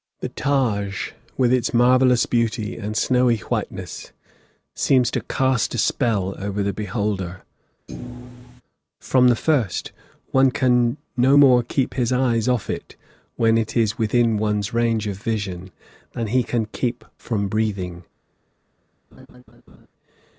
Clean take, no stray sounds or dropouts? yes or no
no